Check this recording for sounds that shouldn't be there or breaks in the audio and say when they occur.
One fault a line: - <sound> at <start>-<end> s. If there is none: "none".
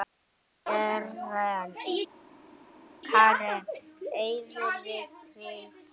none